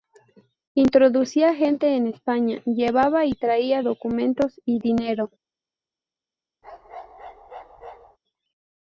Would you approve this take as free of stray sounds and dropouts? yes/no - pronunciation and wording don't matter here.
no